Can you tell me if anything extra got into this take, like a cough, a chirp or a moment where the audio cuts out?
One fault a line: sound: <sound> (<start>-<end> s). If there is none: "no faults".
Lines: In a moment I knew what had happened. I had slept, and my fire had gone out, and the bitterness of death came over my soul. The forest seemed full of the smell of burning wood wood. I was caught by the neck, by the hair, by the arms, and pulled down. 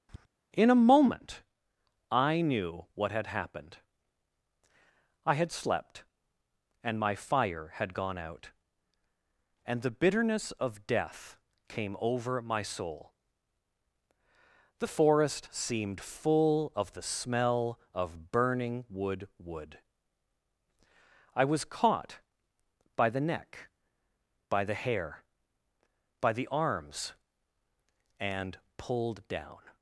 sound: tap (0.1-0.3 s)